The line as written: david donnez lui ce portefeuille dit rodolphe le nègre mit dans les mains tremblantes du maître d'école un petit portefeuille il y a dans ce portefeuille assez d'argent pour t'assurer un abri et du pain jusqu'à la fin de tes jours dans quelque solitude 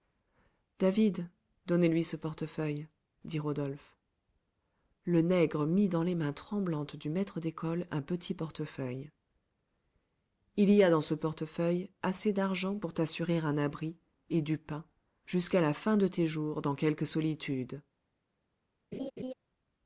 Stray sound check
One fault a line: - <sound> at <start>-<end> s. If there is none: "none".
- laugh at 18.9-19.3 s